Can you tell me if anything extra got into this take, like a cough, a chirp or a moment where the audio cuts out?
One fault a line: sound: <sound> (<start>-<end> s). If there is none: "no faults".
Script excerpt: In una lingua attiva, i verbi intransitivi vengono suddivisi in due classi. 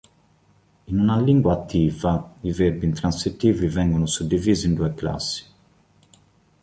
no faults